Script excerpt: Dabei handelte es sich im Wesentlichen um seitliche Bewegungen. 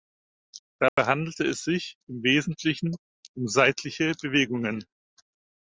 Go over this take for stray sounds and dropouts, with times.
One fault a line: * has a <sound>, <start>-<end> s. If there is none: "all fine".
* has a dropout, 0.9-1.0 s